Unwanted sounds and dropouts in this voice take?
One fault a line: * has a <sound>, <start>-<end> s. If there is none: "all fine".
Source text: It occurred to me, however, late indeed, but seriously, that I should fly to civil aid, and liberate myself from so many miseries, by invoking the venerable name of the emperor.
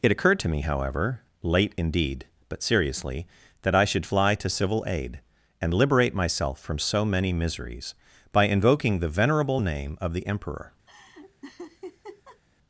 * has a laugh, 10.9-12.4 s